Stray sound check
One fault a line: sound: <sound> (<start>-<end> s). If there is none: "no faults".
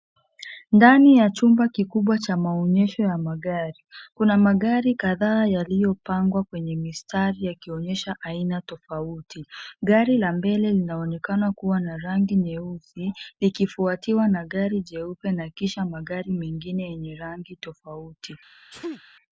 sound: sneeze (18.7-19.0 s)